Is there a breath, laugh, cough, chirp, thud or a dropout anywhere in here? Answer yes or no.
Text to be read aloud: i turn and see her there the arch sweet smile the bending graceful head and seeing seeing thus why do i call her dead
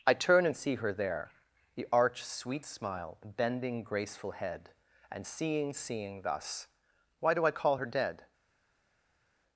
no